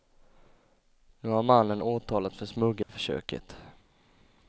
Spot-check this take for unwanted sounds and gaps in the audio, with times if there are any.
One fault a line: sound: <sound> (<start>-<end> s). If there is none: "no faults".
sound: dropout (2.8-2.9 s)